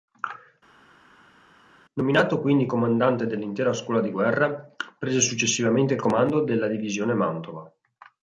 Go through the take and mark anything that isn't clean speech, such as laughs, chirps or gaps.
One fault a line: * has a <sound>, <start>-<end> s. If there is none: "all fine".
all fine